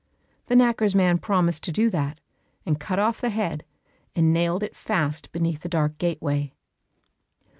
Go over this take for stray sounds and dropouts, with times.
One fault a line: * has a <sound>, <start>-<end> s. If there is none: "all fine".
all fine